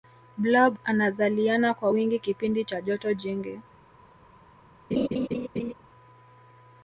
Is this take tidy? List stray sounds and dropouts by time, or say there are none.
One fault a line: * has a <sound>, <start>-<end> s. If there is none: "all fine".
* has a laugh, 4.9-5.7 s